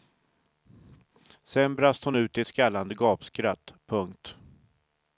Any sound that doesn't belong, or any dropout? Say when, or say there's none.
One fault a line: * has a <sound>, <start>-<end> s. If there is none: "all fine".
all fine